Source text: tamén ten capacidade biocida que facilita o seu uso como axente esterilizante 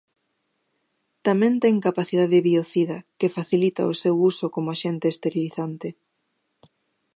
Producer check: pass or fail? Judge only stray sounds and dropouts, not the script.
pass